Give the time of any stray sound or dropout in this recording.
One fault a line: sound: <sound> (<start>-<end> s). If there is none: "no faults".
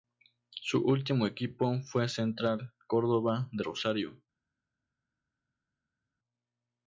no faults